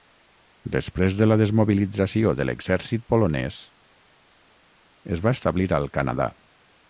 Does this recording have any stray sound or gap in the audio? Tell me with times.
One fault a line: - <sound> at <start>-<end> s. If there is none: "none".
none